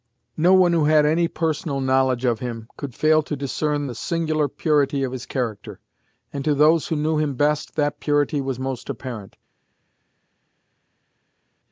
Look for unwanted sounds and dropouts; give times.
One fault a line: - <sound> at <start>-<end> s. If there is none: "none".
none